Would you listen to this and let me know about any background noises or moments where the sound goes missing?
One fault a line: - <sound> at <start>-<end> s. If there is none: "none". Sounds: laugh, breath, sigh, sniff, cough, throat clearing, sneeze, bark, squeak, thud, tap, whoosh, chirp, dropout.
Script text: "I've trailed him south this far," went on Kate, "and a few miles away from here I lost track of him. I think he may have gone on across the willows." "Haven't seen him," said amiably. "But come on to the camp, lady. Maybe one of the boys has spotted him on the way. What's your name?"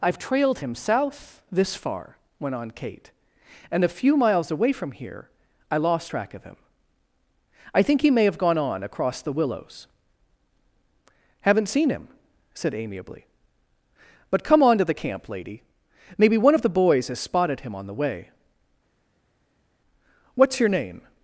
none